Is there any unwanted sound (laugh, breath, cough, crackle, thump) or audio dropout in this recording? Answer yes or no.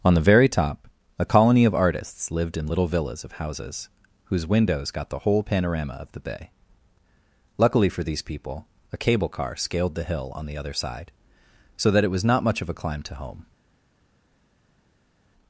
no